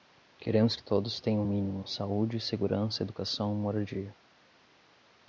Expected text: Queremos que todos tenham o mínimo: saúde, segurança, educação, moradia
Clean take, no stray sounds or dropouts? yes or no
yes